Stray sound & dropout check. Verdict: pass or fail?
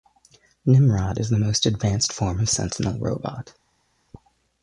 pass